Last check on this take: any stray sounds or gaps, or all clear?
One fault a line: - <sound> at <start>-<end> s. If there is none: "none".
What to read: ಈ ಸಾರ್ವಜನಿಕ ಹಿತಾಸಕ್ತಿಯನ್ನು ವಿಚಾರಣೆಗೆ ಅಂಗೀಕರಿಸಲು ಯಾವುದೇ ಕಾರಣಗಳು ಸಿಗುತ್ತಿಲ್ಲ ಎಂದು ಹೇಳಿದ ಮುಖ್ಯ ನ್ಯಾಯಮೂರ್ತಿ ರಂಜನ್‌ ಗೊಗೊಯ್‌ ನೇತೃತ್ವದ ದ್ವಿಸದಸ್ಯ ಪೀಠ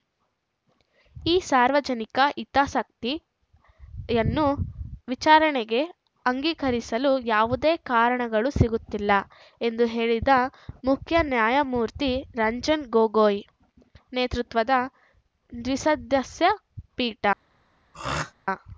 - throat clearing at 17.9-18.3 s